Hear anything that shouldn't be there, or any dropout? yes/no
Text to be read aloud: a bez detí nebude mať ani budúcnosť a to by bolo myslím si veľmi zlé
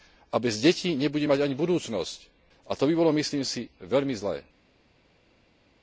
no